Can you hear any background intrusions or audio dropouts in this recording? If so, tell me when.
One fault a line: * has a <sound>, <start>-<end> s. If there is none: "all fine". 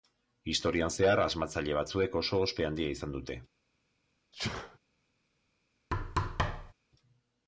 * has a sneeze, 4.3-4.8 s
* has a thud, 5.9-6.7 s